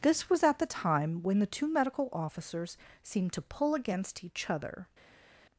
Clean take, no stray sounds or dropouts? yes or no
yes